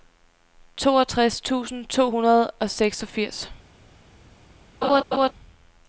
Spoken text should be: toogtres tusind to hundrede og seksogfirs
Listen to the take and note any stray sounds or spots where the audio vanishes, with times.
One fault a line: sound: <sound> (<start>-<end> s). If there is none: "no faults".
sound: laugh (4.8-5.3 s)